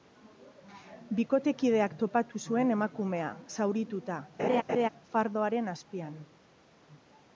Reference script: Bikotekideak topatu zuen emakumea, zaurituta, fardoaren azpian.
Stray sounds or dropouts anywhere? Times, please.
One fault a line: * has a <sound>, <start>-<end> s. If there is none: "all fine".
* has a laugh, 4.4-4.9 s